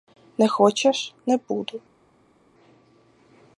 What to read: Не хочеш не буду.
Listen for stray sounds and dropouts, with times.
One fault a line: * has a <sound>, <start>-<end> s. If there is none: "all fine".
all fine